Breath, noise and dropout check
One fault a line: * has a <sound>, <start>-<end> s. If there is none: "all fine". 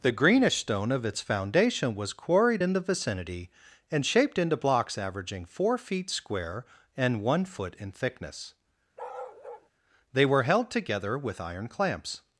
* has a bark, 9.0-9.7 s